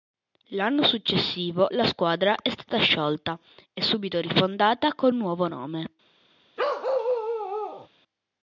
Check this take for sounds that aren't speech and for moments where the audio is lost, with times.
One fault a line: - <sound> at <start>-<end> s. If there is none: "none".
- bark at 6.6-7.9 s